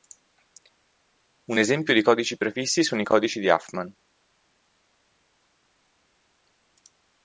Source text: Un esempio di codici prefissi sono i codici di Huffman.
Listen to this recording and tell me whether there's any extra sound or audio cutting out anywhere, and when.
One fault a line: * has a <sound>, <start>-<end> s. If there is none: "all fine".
all fine